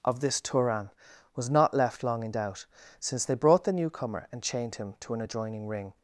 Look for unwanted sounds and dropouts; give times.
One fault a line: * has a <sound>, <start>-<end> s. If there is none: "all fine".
all fine